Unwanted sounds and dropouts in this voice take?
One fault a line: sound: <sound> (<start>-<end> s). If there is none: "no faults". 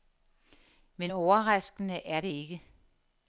no faults